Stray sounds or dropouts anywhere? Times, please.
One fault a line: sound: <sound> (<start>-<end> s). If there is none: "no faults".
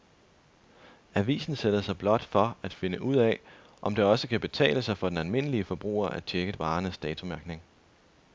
no faults